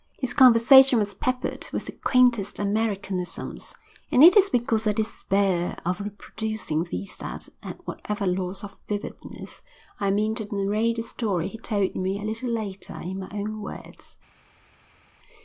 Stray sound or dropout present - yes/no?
no